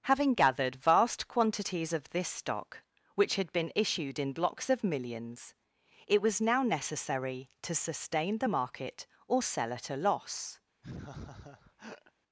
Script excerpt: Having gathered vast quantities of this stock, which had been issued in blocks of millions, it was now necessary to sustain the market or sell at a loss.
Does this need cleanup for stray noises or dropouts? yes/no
yes